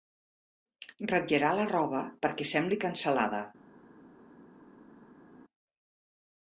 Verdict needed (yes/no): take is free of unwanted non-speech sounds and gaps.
yes